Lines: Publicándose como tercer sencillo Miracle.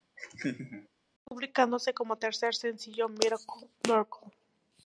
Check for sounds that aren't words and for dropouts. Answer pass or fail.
fail